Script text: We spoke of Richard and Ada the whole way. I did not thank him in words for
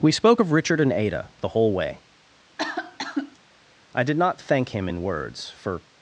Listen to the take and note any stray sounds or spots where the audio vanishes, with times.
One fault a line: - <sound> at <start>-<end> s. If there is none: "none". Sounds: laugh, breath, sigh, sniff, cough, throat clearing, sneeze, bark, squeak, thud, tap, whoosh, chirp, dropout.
- cough at 2.6-3.4 s